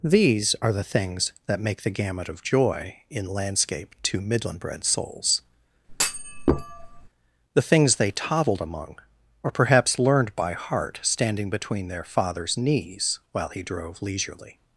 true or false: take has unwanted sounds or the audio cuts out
true